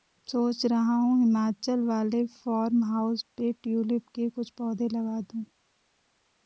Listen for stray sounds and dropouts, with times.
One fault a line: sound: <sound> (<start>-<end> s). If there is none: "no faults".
no faults